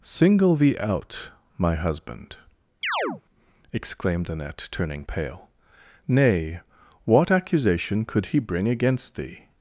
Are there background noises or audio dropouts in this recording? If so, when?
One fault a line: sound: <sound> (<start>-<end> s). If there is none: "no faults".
sound: chirp (2.8-3.2 s)